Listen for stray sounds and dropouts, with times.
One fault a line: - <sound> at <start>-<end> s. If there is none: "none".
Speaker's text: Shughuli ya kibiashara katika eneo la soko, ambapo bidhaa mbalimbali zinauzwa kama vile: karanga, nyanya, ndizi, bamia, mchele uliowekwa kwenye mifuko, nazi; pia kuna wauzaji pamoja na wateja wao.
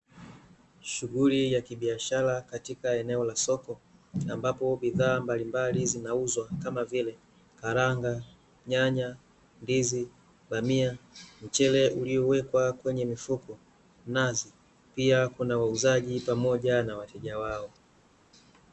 none